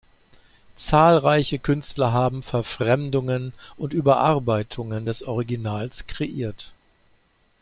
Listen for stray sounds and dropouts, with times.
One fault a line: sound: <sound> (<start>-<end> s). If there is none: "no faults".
no faults